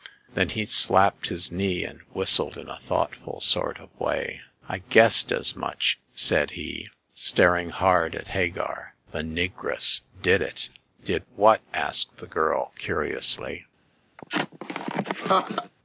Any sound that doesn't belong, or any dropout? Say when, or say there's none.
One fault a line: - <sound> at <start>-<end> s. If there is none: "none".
- laugh at 14.2-15.7 s